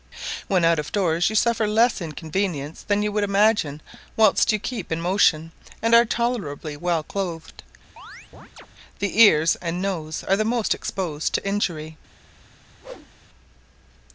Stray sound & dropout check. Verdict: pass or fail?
fail